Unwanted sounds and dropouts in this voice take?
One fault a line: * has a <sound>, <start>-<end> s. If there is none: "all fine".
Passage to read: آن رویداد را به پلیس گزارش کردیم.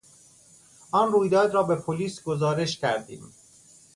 all fine